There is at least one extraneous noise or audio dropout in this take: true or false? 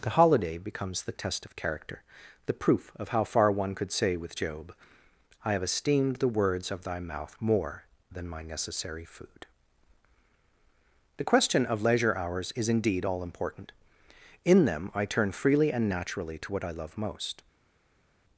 false